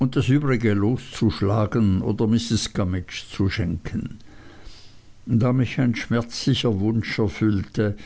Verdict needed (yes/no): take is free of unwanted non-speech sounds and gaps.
yes